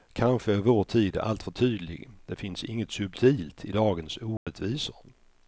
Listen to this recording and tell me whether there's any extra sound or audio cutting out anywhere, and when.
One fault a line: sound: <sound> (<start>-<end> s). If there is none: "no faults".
sound: dropout (4.4-4.5 s)